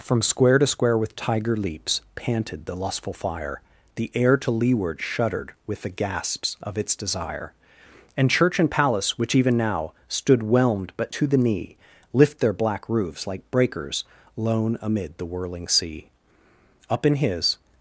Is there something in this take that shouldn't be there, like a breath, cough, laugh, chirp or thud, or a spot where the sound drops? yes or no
no